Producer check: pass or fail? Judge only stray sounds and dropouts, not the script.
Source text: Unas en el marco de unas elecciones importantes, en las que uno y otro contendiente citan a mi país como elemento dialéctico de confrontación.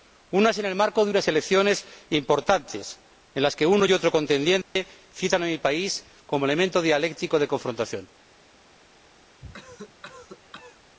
fail